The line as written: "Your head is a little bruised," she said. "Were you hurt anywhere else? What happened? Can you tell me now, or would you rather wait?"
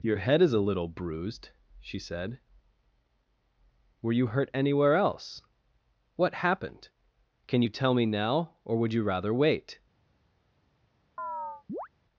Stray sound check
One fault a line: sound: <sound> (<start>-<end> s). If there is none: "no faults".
sound: chirp (11.2-11.9 s)